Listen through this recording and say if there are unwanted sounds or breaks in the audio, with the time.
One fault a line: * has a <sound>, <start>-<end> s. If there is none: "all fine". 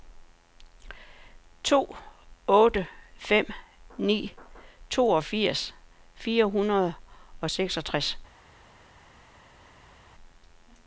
all fine